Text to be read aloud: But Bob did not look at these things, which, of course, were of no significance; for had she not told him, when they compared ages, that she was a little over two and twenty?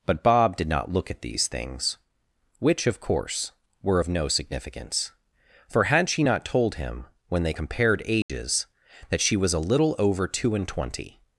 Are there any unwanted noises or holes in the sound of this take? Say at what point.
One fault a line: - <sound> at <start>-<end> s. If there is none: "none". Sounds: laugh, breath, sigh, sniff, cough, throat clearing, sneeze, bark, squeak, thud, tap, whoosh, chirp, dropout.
- dropout at 8.2-8.3 s